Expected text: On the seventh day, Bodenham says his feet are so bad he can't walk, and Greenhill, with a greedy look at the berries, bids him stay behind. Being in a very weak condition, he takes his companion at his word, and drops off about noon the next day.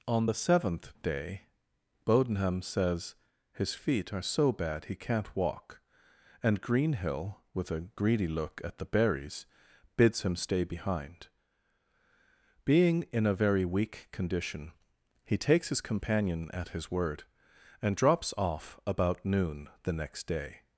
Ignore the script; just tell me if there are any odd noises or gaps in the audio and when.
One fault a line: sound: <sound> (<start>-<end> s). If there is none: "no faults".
no faults